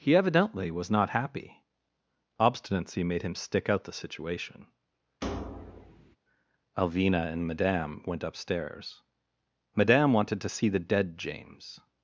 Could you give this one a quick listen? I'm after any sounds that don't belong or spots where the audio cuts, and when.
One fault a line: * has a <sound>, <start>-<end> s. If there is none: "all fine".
* has a thud, 5.2-6.2 s